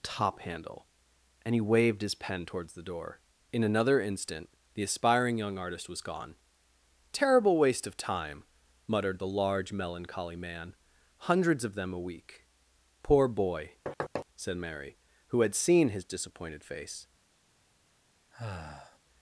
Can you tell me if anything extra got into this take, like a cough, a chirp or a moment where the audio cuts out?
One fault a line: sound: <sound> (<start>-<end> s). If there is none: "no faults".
sound: thud (13.9-14.3 s)
sound: sigh (18.3-19.0 s)